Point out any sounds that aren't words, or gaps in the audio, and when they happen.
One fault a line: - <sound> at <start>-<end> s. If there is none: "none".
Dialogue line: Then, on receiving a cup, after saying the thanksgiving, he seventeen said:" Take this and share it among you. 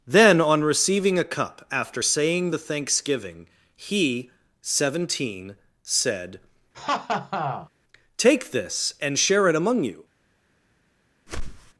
- laugh at 6.7-7.7 s
- whoosh at 11.3-11.7 s